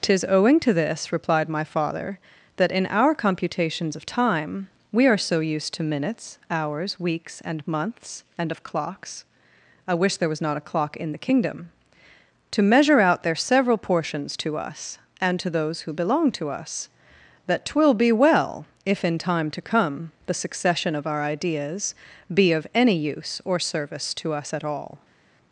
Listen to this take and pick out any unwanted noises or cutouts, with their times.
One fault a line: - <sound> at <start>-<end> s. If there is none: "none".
none